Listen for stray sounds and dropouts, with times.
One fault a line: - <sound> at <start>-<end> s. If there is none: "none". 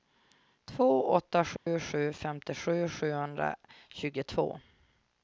- dropout at 1.6-1.7 s